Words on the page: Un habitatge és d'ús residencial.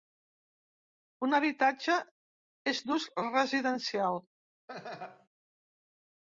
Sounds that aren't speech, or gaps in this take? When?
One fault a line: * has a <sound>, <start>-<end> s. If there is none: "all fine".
* has a laugh, 4.7-5.3 s